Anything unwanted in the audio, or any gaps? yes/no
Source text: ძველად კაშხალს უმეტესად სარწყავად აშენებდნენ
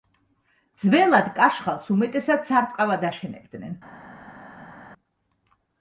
no